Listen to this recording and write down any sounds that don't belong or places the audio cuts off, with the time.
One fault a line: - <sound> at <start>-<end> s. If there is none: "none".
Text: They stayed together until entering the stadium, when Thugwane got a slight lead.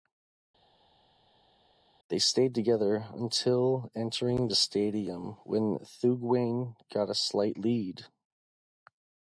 none